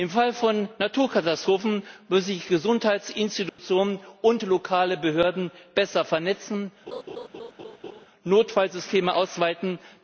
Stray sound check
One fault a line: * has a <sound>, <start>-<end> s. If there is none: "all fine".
* has a dropout, 3.5-3.6 s
* has a laugh, 6.9-8.1 s